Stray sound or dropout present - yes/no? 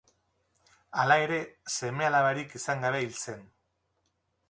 no